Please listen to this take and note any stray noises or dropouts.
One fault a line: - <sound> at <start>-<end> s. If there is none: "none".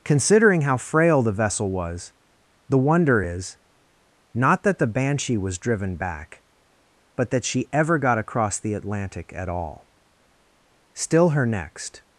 none